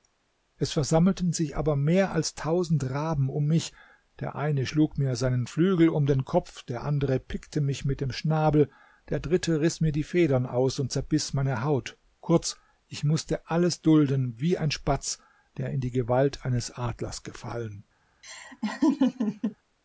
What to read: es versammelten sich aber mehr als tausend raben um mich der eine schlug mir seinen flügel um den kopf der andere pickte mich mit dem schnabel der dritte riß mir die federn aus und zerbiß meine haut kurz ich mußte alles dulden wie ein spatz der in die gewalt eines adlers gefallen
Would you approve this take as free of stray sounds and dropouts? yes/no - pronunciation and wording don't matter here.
no